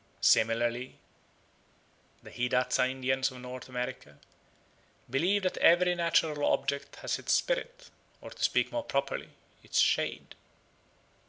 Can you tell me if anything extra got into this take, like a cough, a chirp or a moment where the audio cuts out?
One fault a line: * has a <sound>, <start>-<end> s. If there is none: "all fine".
all fine